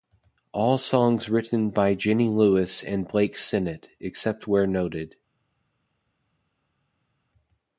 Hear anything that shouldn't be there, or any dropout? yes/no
no